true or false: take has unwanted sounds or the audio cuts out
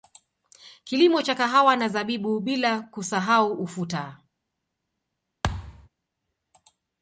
true